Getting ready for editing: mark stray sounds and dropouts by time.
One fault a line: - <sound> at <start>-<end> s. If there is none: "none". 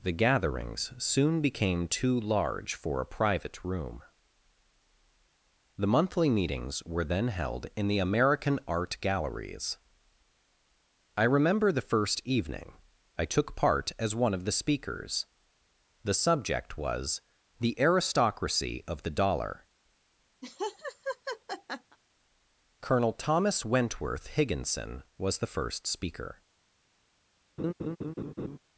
- laugh at 20.4-22.0 s
- laugh at 27.6-28.6 s